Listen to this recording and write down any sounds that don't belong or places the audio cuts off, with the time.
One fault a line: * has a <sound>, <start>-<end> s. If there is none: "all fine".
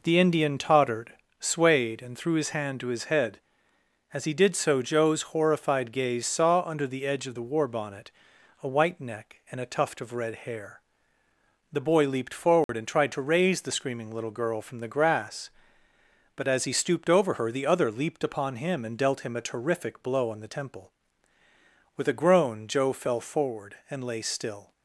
* has a dropout, 12.6-12.7 s